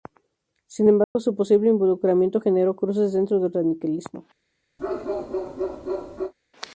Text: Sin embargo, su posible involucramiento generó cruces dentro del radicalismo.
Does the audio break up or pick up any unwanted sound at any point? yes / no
yes